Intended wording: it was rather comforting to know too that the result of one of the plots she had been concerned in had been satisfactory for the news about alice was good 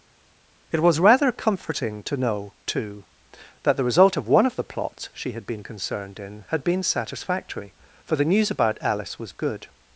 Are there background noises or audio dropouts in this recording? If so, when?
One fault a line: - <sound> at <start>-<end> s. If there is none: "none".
none